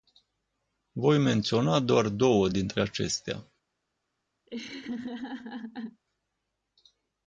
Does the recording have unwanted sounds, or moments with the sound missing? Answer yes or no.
yes